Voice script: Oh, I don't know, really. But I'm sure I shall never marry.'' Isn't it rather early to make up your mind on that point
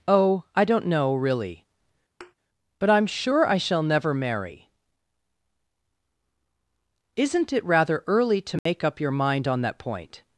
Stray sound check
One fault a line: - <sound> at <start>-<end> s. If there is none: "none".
- thud at 2.2-2.4 s
- dropout at 8.6-8.7 s